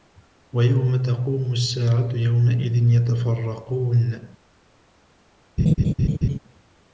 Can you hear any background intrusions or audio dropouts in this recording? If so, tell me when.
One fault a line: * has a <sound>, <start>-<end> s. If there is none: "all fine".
* has a laugh, 5.6-6.4 s